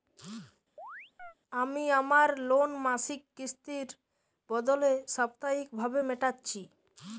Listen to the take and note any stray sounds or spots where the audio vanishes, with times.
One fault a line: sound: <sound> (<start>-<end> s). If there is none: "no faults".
sound: chirp (0.8-1.3 s)